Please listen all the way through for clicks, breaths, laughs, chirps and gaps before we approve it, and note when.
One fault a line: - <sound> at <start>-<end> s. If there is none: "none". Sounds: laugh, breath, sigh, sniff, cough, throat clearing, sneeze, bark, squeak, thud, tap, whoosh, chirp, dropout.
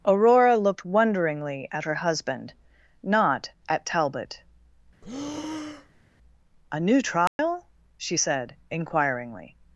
- breath at 5.0-6.0 s
- dropout at 7.3-7.4 s